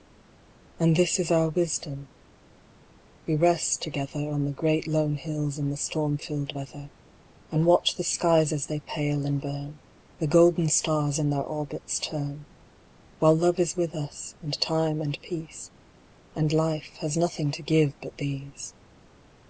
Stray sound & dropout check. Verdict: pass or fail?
pass